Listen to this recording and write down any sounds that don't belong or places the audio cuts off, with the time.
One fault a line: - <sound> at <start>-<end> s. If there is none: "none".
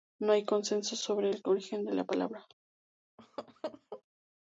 - laugh at 3.2-4.0 s